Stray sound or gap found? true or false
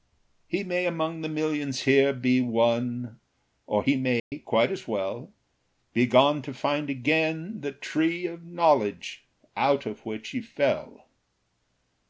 true